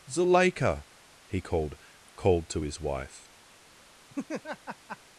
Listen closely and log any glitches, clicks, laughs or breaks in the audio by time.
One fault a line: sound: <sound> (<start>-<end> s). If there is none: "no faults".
sound: laugh (4.1-5.0 s)